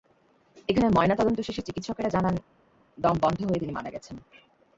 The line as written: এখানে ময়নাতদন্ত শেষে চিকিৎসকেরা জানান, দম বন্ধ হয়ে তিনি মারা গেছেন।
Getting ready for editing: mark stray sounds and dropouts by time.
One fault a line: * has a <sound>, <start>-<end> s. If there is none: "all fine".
all fine